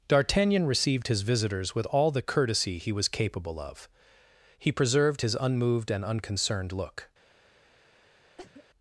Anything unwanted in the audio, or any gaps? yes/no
yes